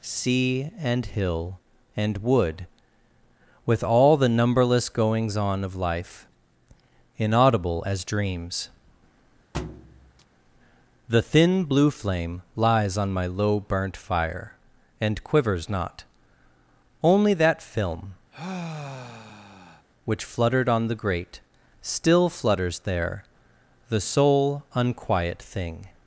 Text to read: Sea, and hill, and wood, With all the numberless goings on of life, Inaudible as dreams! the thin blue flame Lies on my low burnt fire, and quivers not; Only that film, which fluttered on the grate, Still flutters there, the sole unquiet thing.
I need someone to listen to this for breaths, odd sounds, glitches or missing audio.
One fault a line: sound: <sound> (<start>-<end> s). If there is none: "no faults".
sound: thud (9.5-10.3 s)
sound: sigh (18.3-19.9 s)